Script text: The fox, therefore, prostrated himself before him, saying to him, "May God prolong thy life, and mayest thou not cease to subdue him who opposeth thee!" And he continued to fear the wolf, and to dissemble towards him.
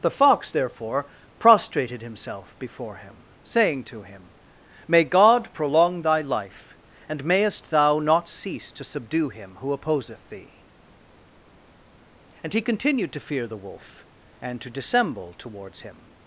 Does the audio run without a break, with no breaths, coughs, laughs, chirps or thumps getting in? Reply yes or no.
yes